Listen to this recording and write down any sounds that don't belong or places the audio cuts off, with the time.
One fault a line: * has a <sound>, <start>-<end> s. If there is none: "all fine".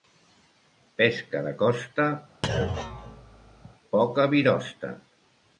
* has a thud, 2.4-3.7 s